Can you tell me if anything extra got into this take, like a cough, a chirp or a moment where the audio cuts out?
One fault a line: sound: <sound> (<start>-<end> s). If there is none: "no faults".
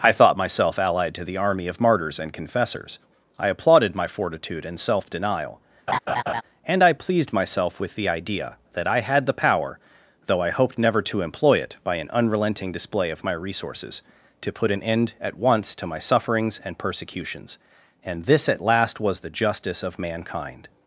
sound: laugh (5.9-6.4 s)